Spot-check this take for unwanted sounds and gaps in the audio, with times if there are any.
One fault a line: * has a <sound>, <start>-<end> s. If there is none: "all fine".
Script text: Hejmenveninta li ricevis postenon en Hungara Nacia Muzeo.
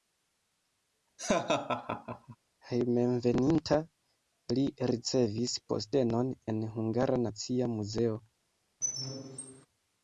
* has a laugh, 1.2-2.4 s
* has a squeak, 8.8-9.7 s